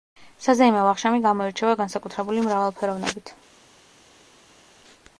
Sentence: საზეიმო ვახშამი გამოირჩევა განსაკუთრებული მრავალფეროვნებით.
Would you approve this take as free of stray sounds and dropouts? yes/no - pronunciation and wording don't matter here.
yes